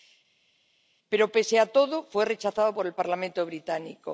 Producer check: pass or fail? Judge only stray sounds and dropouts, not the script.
pass